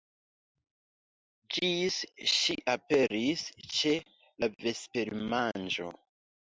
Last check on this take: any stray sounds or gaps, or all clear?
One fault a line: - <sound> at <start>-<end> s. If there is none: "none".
none